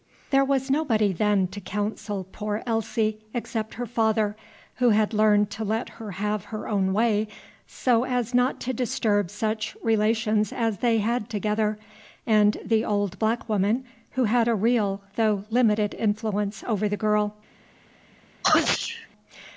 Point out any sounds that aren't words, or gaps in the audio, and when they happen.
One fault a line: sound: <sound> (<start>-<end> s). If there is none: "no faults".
sound: sneeze (18.4-19.1 s)